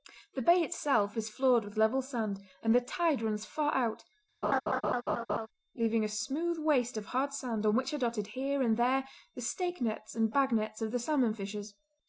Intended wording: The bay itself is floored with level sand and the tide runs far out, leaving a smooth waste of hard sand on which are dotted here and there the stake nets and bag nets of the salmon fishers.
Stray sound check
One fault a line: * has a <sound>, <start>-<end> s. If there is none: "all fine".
* has a laugh, 4.4-5.5 s